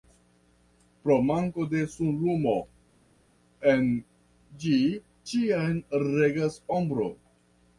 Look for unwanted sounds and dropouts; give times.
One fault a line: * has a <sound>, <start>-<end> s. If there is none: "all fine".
all fine